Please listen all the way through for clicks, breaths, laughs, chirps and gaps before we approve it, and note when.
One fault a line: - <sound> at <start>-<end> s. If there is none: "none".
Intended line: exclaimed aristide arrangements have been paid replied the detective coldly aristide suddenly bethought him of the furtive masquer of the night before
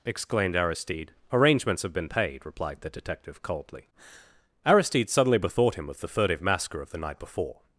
none